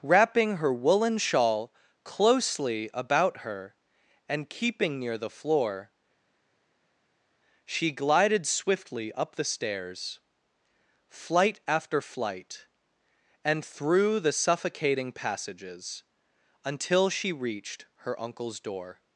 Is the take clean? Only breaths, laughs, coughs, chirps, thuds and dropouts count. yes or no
yes